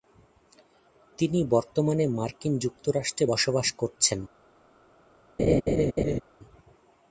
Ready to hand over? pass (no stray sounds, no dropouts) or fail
fail